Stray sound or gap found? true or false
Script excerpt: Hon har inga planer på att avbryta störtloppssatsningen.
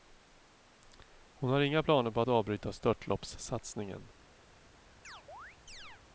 true